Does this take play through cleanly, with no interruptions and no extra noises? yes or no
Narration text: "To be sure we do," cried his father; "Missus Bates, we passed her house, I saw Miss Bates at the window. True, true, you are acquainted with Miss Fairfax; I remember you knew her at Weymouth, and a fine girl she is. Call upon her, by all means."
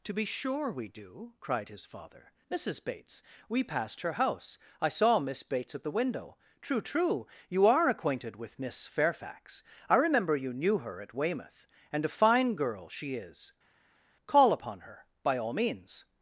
yes